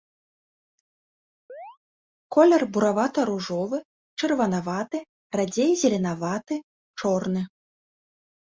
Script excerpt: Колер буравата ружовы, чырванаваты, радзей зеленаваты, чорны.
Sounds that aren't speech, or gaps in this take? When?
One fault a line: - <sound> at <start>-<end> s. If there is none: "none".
- chirp at 1.5-1.8 s